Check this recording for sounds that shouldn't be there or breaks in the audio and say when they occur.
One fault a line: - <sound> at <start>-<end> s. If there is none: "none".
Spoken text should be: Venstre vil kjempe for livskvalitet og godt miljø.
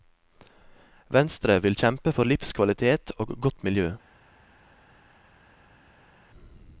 none